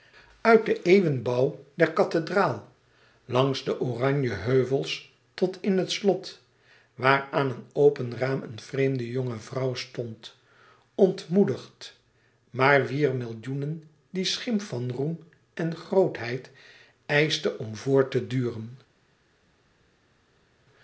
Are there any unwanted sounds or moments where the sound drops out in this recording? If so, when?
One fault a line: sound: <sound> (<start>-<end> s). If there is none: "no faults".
no faults